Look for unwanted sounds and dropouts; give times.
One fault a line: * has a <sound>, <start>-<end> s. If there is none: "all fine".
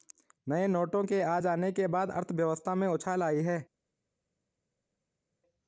all fine